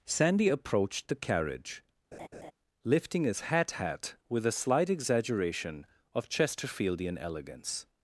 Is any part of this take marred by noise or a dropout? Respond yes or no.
yes